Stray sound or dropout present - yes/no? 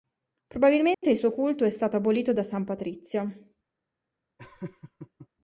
yes